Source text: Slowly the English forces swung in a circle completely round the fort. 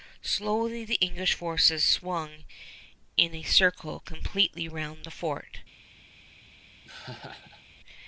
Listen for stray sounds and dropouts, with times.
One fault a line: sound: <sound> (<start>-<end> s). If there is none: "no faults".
sound: laugh (6.8-7.6 s)